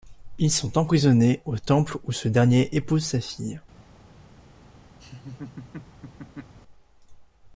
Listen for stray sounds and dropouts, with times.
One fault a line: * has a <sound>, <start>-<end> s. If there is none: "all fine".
* has a laugh, 5.0-6.5 s